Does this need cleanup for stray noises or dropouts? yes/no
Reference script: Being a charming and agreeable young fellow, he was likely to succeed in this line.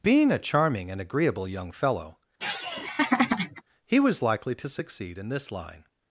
yes